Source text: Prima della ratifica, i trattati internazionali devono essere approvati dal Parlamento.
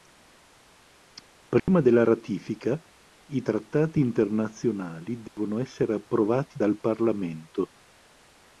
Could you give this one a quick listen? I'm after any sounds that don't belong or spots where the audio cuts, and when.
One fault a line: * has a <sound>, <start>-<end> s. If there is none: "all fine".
* has a dropout, 1.6-1.7 s
* has a dropout, 5.3-5.4 s